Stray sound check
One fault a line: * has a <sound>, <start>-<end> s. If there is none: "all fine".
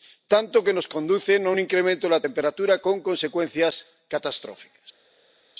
all fine